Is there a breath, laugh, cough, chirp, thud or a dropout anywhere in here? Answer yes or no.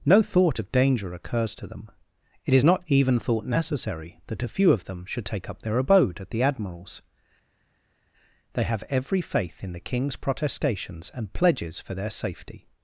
no